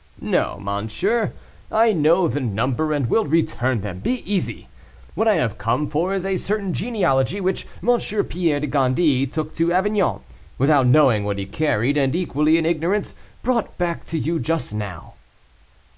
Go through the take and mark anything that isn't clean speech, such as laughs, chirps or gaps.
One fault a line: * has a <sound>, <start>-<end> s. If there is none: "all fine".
all fine